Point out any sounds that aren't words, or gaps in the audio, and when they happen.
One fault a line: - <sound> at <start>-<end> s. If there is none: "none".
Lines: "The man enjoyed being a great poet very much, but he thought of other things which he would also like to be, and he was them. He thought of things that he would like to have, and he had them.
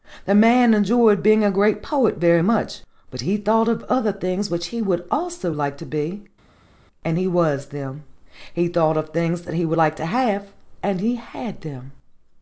none